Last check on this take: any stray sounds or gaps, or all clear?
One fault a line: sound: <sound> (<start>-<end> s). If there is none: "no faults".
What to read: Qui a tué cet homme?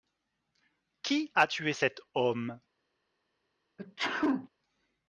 sound: sneeze (3.8-4.5 s)